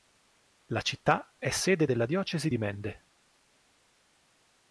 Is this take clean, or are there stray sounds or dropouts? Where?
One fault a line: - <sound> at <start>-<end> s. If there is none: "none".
none